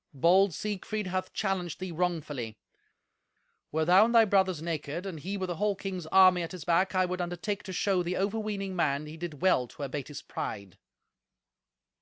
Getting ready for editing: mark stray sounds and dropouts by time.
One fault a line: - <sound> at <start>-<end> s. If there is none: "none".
none